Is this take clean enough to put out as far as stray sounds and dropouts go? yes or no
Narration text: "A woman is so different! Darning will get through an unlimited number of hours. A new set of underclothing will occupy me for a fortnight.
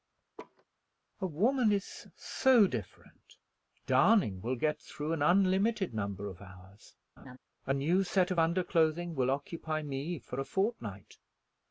no